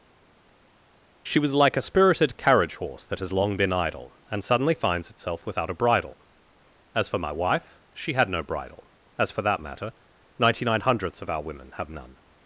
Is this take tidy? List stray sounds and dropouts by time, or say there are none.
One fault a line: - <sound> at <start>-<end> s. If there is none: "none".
none